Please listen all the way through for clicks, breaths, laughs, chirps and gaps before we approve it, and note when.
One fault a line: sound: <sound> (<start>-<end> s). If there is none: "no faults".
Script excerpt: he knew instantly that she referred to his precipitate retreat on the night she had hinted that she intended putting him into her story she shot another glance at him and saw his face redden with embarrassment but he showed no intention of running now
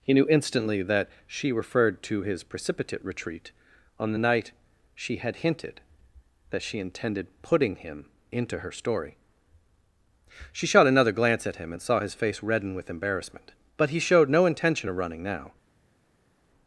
no faults